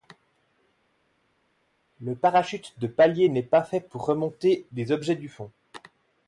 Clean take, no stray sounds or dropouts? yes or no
yes